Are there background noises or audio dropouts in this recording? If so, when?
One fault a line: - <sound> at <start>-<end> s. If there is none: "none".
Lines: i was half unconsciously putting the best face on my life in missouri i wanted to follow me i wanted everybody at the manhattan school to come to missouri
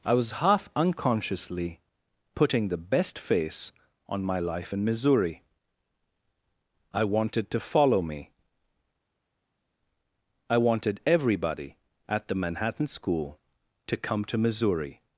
none